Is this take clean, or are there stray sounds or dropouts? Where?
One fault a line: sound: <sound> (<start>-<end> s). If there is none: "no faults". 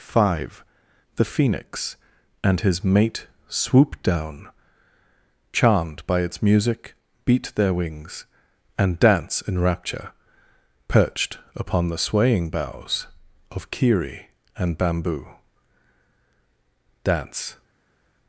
no faults